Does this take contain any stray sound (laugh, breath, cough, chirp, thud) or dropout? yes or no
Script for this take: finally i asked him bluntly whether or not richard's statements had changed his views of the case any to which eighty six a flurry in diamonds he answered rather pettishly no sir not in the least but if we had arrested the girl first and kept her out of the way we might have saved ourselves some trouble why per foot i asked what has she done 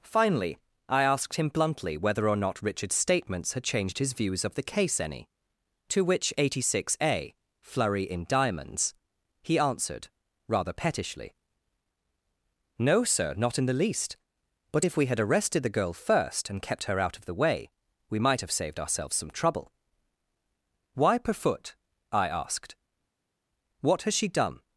no